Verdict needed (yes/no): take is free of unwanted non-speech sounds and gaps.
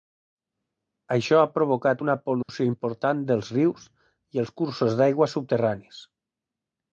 no